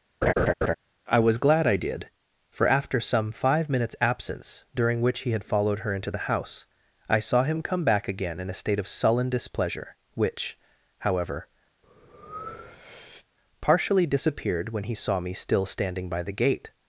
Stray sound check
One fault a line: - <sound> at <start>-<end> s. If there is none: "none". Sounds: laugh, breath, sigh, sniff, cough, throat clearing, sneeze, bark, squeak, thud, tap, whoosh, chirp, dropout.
- laugh at 0.2-0.7 s
- breath at 11.8-13.3 s